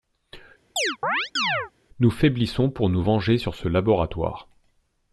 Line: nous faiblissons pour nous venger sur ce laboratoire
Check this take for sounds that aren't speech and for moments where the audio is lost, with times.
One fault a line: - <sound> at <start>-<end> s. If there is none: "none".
- chirp at 0.8-1.7 s